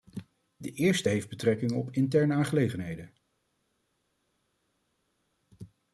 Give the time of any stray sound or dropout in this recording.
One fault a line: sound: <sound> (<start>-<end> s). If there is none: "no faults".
no faults